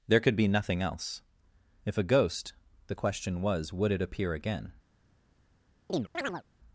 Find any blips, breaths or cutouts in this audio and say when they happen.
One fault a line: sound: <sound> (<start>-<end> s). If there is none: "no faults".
sound: chirp (5.9-6.4 s)